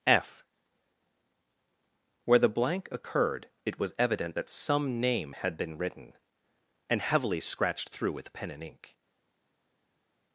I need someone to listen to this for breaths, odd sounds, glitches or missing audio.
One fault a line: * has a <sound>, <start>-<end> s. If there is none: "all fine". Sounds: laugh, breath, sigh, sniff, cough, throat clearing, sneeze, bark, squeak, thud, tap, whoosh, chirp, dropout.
all fine